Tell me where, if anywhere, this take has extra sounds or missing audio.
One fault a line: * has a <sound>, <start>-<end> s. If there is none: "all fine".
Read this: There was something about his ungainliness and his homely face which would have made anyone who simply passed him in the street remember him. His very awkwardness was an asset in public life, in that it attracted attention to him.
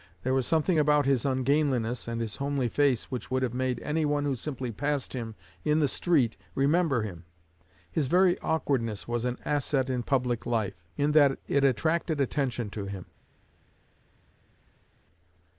all fine